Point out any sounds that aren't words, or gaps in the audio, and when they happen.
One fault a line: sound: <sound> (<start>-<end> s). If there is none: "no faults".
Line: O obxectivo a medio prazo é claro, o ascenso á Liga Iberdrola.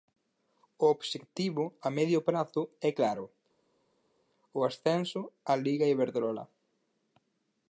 no faults